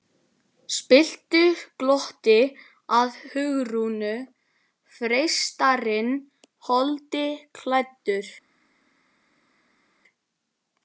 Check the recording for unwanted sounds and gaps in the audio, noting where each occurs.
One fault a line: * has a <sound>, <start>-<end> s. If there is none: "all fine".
all fine